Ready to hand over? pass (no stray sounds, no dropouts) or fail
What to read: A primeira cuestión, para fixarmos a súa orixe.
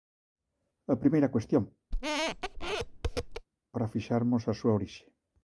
fail